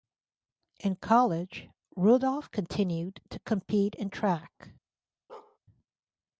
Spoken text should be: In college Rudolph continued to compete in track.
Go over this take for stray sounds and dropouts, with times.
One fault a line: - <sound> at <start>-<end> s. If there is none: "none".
- bark at 5.3-5.6 s